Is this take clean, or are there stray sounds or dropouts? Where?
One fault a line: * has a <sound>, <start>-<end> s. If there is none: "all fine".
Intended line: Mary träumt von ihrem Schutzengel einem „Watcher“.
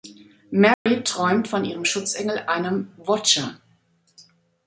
* has a dropout, 0.7-0.9 s